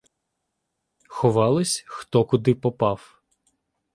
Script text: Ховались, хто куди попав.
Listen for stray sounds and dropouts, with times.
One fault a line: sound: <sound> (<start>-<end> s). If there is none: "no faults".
no faults